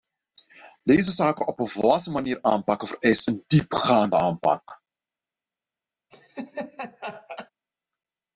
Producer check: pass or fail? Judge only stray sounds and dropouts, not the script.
fail